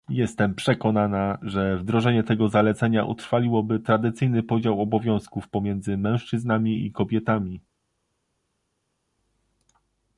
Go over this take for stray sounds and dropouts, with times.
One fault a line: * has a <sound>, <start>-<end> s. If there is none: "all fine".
all fine